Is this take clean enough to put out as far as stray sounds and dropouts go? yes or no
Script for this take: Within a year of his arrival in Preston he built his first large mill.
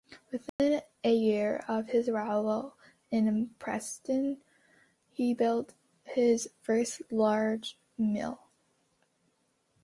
no